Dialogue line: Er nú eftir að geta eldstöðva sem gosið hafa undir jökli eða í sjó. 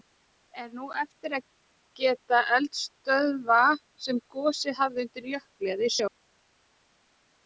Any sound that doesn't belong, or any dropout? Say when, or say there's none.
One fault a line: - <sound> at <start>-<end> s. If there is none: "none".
none